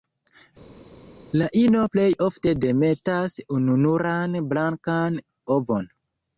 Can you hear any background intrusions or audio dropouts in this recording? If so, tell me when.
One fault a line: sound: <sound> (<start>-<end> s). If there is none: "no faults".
no faults